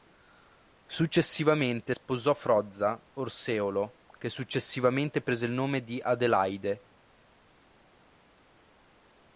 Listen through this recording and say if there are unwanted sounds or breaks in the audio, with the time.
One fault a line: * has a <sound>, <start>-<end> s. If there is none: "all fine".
all fine